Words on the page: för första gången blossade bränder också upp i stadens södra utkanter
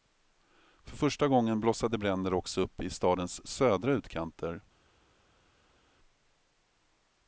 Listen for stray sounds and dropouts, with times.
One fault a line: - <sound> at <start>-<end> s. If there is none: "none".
none